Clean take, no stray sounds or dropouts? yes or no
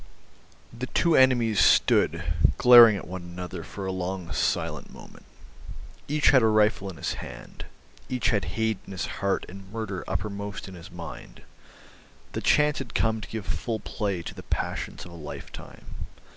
yes